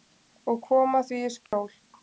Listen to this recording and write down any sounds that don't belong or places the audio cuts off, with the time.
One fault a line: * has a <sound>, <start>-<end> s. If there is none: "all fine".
* has a dropout, 1.5-1.5 s